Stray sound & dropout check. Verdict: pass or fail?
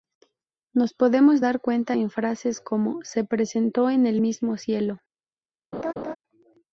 fail